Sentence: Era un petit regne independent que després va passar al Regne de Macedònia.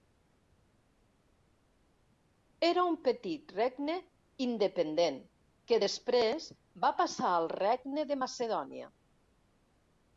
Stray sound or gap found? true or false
false